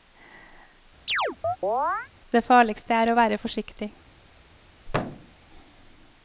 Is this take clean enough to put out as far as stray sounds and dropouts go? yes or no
no